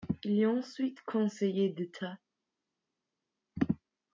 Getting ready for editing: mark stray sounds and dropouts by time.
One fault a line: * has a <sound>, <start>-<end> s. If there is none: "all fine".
all fine